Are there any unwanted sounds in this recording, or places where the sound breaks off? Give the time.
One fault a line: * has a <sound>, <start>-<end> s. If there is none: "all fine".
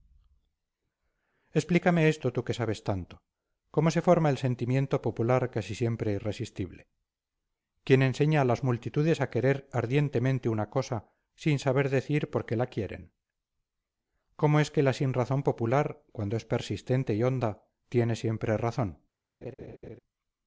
* has a laugh, 19.4-20.0 s